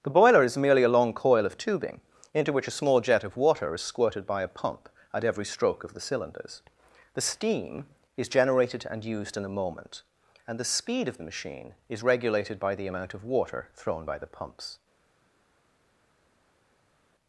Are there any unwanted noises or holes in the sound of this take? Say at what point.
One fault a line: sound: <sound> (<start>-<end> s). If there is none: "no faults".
no faults